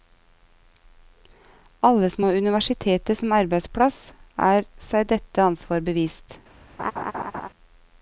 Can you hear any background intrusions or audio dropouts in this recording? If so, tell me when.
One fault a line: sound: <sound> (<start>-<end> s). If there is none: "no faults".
sound: laugh (6.8-7.5 s)